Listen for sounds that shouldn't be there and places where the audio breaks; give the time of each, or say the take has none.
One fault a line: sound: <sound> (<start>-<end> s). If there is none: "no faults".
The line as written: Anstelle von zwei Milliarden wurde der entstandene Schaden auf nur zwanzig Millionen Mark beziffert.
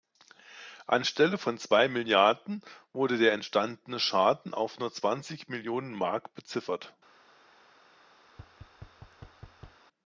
sound: thud (8.3-9.8 s)